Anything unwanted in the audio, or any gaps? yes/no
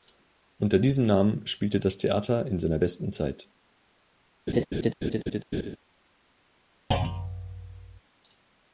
yes